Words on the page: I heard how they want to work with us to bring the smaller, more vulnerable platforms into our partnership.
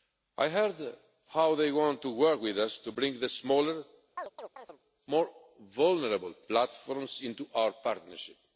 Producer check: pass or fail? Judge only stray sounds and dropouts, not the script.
fail